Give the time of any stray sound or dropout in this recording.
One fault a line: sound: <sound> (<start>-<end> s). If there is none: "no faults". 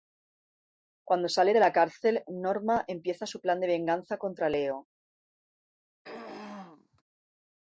sound: throat clearing (6.0-7.0 s)